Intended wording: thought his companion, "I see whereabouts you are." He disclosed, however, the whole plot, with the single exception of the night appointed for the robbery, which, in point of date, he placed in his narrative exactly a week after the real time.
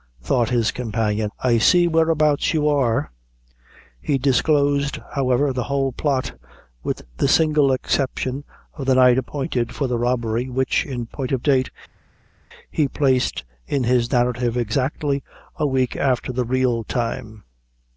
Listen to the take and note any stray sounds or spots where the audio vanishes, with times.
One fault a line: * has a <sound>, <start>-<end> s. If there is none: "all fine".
all fine